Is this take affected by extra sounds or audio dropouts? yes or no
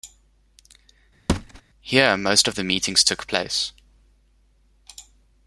yes